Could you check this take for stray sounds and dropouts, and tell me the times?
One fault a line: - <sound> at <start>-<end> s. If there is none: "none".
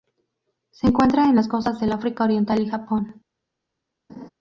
- laugh at 4.1-4.3 s